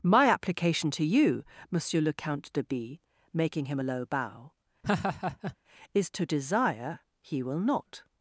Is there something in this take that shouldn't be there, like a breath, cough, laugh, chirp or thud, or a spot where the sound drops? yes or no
yes